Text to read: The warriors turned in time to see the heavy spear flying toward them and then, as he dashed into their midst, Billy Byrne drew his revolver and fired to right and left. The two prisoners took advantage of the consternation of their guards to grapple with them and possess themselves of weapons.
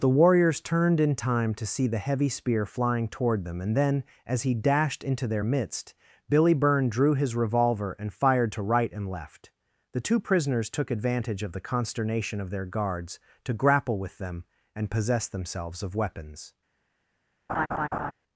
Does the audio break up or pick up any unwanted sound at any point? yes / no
yes